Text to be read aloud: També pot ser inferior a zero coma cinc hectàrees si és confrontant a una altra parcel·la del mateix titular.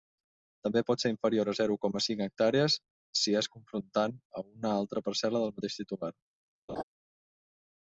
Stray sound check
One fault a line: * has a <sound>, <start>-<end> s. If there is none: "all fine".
* has a laugh, 6.7-6.8 s